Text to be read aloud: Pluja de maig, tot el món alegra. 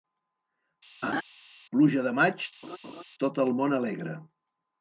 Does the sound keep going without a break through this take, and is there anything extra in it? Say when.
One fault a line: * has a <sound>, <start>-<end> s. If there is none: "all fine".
* has a laugh, 1.0-1.2 s
* has a laugh, 2.6-3.0 s